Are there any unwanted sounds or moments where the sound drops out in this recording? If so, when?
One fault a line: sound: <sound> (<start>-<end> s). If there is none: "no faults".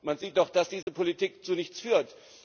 sound: dropout (0.8-0.9 s)